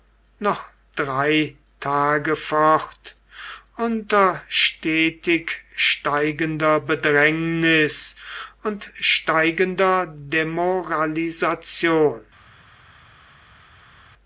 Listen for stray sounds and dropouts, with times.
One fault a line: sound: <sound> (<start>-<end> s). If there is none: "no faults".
no faults